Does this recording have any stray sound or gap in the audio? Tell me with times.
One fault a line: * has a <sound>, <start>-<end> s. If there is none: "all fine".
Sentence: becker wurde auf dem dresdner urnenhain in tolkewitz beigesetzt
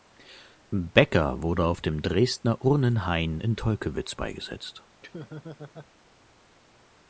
* has a laugh, 5.0-5.9 s